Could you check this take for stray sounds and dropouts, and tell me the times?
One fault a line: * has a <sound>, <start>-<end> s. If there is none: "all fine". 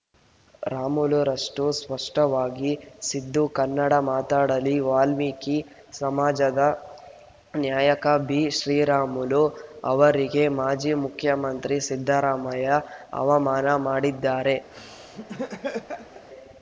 * has a laugh, 14.7-16.3 s